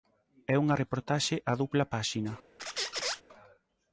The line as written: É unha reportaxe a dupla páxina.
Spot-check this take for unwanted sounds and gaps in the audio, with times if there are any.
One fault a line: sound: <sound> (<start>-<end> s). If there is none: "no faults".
sound: squeak (2.6-3.2 s)